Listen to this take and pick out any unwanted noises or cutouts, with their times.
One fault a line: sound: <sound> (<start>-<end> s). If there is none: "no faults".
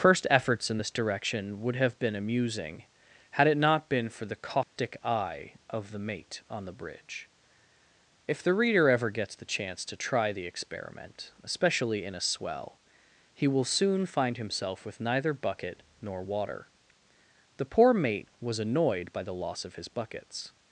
sound: dropout (4.6-4.8 s)